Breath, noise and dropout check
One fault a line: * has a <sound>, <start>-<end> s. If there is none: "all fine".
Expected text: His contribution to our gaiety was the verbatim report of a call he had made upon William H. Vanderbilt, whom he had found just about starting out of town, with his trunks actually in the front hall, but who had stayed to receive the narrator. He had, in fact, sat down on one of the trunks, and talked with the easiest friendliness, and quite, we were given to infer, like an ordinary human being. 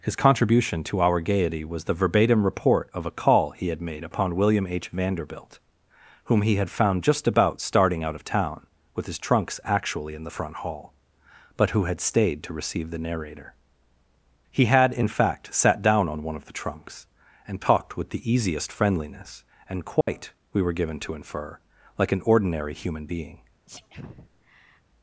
* has a dropout, 20.0-20.1 s
* has a sneeze, 23.7-24.8 s